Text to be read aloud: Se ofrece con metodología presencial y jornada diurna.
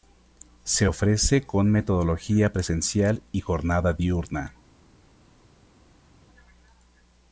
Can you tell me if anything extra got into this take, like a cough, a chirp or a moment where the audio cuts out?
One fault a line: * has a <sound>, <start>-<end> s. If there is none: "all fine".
all fine